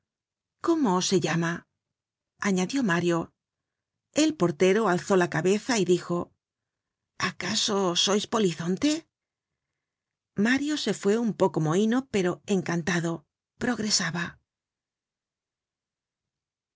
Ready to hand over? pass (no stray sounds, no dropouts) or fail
pass